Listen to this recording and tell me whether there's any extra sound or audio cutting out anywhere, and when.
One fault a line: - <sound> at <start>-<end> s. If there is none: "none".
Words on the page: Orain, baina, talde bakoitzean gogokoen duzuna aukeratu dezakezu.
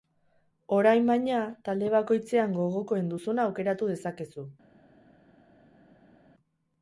none